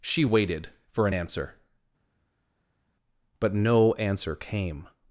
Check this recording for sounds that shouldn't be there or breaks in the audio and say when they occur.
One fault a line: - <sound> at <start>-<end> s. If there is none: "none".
none